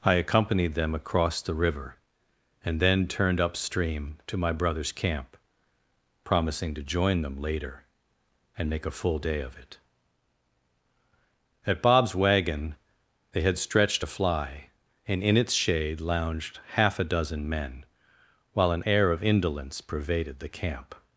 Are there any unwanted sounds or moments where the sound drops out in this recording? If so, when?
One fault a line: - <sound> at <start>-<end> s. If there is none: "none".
none